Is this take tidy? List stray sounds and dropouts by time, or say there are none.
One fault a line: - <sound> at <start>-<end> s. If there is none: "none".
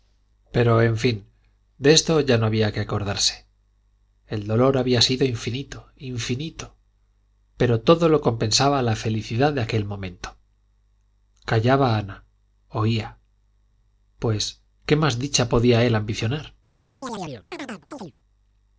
- chirp at 17.0-18.1 s